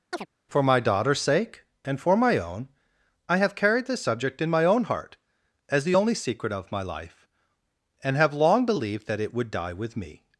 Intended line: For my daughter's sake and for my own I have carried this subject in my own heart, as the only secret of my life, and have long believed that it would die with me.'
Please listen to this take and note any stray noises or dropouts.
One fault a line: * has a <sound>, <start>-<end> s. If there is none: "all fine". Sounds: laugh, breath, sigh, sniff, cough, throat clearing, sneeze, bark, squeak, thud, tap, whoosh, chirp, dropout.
* has a chirp, 0.1-0.3 s